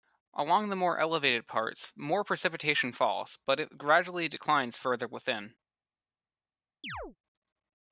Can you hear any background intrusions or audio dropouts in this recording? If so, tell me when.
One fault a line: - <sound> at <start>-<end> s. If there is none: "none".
- chirp at 6.8-7.2 s